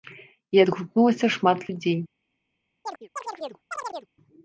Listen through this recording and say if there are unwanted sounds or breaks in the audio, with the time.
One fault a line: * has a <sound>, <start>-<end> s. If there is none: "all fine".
* has a chirp, 2.8-4.1 s